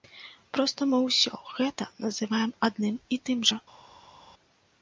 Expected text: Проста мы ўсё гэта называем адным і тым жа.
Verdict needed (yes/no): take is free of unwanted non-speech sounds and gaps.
yes